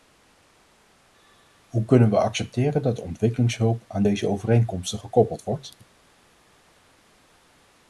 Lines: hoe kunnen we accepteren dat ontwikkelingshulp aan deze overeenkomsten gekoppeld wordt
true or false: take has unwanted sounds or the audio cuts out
false